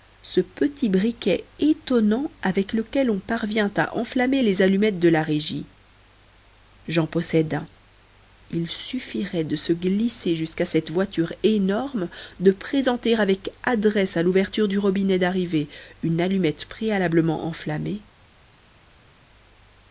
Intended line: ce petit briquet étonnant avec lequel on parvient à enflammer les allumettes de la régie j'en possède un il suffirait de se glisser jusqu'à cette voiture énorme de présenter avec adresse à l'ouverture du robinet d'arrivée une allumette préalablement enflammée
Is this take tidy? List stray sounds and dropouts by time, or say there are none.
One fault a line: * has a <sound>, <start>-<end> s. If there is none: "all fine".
all fine